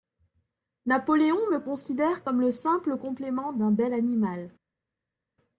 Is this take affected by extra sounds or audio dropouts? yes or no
no